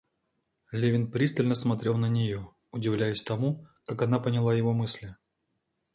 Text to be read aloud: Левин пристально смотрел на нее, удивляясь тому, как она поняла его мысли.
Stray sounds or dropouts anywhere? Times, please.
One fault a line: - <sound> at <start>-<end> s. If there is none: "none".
none